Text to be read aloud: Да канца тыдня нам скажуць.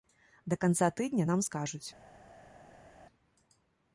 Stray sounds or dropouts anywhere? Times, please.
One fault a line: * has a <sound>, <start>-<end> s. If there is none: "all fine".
all fine